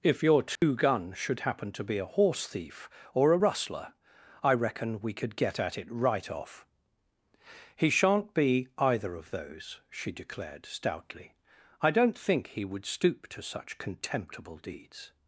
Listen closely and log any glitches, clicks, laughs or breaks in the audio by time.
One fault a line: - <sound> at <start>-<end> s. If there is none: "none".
- dropout at 0.6-0.6 s